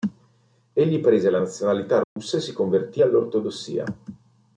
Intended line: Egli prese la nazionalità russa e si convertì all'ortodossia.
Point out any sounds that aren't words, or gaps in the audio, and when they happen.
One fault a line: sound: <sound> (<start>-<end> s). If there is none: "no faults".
sound: dropout (2.0-2.2 s)